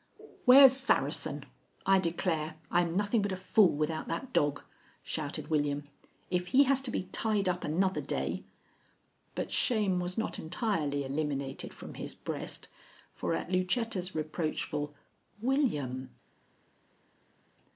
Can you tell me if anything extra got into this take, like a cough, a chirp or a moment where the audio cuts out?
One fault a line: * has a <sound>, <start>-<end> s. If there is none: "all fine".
all fine